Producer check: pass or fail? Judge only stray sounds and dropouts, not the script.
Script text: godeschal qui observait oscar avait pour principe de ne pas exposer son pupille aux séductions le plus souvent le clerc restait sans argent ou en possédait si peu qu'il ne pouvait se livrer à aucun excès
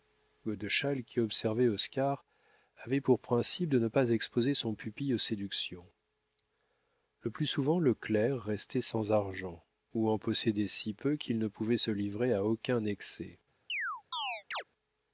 fail